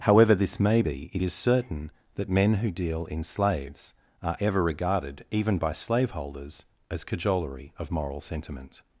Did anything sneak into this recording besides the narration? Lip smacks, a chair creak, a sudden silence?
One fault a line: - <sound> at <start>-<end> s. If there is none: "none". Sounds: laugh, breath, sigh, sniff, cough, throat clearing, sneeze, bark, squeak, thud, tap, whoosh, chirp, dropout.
none